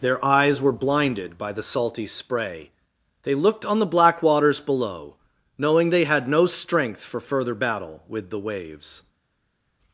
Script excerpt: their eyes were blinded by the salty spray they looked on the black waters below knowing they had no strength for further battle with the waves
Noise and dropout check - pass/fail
pass